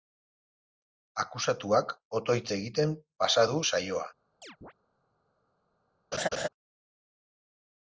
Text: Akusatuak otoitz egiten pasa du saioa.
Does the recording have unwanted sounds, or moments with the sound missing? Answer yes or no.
yes